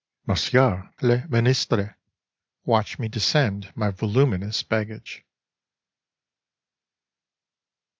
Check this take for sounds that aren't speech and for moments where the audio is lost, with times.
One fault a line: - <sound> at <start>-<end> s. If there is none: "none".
none